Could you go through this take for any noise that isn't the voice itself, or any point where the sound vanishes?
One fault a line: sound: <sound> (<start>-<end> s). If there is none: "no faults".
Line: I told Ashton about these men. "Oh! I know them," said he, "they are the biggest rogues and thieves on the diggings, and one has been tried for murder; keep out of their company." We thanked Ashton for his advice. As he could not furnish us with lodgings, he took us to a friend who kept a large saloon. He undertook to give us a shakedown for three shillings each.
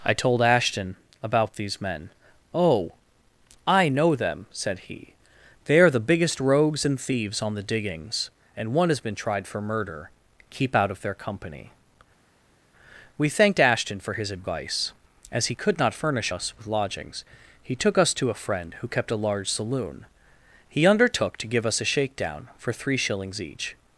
no faults